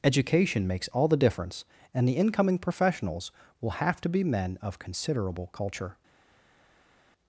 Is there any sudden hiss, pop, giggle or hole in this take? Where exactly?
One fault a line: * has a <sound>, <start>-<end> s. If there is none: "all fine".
all fine